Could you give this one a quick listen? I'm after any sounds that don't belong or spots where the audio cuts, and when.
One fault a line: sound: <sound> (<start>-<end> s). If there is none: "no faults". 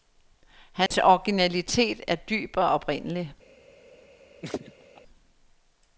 sound: dropout (0.9-0.9 s)
sound: laugh (4.4-5.0 s)